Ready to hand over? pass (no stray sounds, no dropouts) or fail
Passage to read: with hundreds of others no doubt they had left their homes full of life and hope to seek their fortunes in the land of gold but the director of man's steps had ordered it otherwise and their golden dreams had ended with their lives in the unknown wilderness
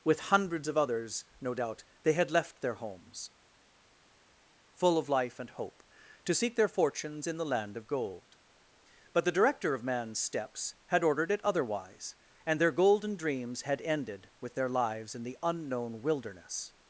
pass